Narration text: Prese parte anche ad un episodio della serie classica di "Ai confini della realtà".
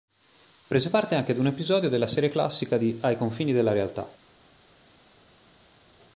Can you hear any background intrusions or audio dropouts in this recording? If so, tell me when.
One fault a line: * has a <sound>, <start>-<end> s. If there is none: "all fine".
all fine